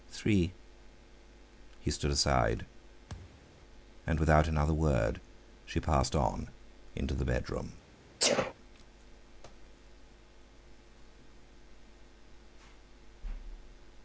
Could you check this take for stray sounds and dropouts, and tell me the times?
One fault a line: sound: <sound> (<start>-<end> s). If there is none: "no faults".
sound: thud (3.1-3.6 s)
sound: sneeze (8.2-8.5 s)